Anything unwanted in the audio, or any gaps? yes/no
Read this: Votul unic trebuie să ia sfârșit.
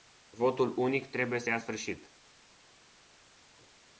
no